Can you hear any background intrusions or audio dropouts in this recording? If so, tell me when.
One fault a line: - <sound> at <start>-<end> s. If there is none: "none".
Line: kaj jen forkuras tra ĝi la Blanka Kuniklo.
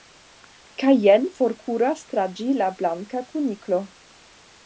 none